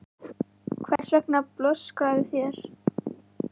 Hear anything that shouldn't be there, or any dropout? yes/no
yes